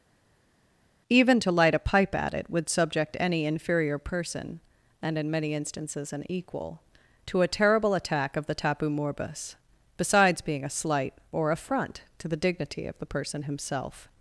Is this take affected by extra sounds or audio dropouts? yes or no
no